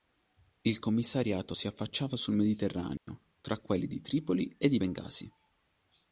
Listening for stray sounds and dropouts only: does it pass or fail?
fail